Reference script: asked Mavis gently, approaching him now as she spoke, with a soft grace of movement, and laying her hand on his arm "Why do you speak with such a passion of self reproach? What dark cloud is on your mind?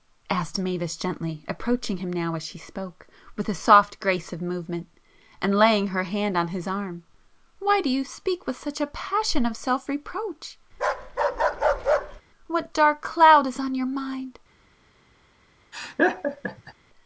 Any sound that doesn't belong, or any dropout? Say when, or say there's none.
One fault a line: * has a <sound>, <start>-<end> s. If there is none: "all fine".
* has a bark, 10.7-12.2 s
* has a laugh, 15.7-16.7 s